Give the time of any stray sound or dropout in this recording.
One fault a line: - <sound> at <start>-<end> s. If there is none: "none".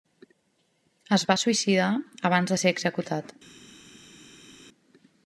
none